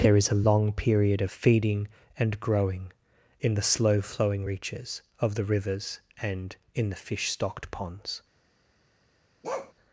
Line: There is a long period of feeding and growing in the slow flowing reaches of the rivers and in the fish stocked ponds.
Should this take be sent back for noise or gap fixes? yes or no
yes